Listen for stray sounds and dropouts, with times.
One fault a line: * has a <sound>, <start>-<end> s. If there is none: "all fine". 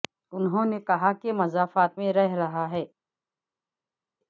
all fine